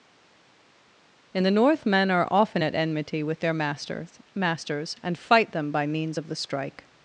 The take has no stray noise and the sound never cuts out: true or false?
true